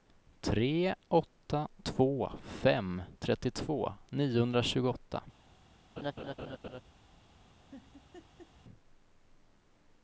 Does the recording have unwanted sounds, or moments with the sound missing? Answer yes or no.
yes